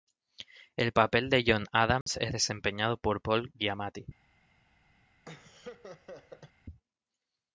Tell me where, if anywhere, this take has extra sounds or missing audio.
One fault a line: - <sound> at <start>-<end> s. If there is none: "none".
- dropout at 2.0-2.1 s
- laugh at 5.2-6.5 s